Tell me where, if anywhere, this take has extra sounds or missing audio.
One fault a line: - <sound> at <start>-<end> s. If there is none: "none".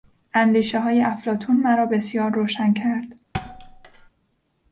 - thud at 3.3-4.1 s